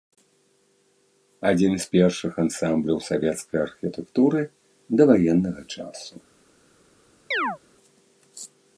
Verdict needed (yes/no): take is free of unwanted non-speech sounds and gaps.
no